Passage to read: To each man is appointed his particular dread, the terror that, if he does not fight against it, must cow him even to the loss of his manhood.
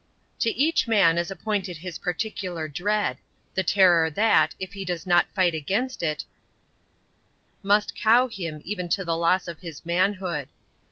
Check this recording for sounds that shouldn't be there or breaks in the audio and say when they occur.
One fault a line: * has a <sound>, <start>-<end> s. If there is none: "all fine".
all fine